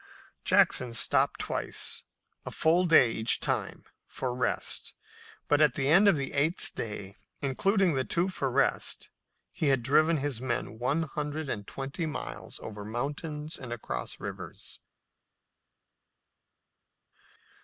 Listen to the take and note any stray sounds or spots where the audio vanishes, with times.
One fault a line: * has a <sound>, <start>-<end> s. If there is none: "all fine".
all fine